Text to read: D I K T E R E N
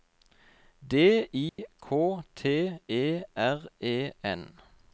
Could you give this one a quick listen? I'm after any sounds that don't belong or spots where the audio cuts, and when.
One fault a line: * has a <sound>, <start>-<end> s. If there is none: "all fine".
* has a dropout, 1.5-1.6 s